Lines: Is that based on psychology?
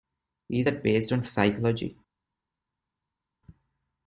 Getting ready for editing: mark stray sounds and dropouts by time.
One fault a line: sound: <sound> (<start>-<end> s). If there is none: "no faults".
no faults